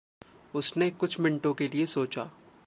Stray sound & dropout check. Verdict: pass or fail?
pass